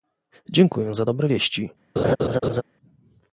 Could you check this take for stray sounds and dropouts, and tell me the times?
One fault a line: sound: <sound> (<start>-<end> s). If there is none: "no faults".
sound: laugh (2.0-2.6 s)